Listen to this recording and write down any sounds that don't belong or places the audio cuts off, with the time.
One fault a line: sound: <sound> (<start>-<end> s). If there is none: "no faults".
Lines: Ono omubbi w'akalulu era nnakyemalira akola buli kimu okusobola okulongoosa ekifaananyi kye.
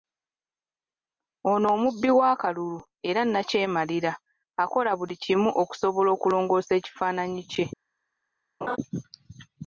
sound: laugh (8.6-8.8 s)